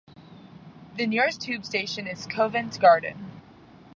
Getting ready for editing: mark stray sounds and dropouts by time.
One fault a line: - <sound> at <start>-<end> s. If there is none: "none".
none